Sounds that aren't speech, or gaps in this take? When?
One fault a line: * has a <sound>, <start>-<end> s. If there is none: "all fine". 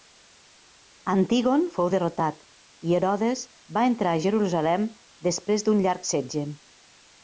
all fine